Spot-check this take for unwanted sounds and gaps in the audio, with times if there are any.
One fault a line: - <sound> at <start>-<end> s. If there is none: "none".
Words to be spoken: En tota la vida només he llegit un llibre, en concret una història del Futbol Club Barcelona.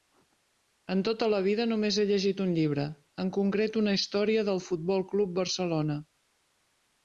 none